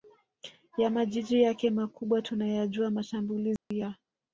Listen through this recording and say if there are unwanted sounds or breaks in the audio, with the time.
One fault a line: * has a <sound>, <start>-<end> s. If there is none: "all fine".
* has a dropout, 3.6-3.7 s